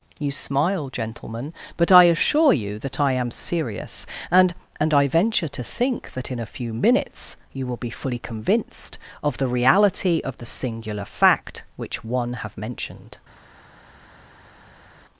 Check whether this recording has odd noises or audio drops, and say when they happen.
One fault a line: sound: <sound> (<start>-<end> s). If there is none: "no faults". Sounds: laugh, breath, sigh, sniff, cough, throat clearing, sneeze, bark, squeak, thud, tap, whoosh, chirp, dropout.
no faults